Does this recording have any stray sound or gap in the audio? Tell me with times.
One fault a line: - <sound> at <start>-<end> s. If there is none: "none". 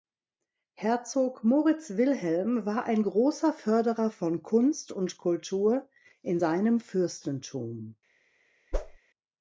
- whoosh at 8.7-9.0 s